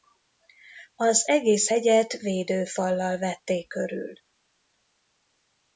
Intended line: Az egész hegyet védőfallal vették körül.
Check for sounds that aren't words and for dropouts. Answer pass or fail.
pass